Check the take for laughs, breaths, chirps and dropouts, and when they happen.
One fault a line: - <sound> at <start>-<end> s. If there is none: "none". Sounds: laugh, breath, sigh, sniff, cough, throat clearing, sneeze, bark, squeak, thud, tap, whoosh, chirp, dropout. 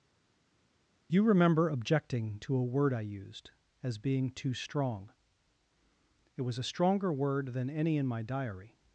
none